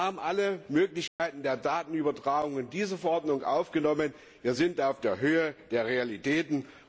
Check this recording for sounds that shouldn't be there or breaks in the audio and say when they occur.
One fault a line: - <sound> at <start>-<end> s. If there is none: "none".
- dropout at 1.1-1.2 s